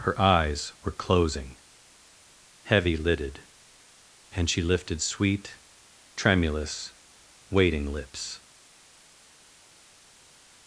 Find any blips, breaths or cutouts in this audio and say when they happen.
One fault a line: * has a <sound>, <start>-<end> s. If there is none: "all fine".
all fine